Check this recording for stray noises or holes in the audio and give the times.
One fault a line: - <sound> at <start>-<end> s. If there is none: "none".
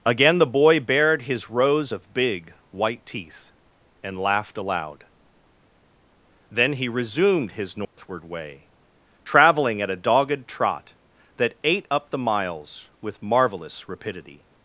- dropout at 7.8-8.0 s